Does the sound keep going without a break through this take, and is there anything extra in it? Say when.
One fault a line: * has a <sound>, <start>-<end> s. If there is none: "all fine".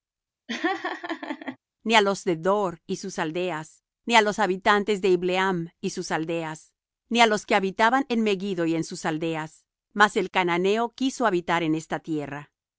* has a laugh, 0.5-1.6 s